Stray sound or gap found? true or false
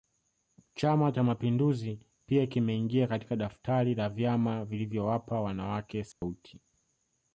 true